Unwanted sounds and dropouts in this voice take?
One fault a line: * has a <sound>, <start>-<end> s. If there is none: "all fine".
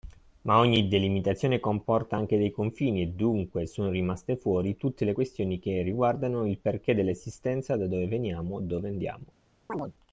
* has a chirp, 9.7-9.9 s